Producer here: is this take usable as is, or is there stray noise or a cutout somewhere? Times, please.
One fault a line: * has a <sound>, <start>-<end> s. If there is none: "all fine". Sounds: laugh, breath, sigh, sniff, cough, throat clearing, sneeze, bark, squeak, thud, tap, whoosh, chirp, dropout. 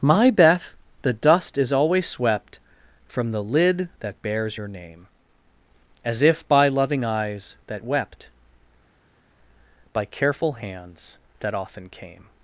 all fine